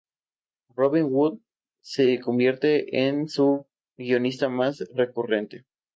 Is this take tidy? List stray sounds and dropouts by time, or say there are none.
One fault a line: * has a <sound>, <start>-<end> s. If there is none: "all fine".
all fine